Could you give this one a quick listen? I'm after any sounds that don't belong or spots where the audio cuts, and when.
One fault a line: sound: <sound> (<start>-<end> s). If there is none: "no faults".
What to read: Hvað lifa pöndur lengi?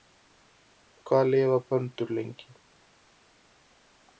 no faults